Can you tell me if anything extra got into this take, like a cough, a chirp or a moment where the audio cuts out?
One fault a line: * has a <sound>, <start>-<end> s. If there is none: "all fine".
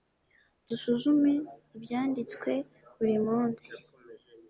all fine